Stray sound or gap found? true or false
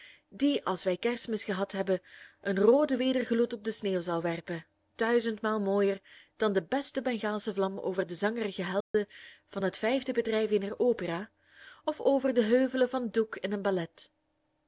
true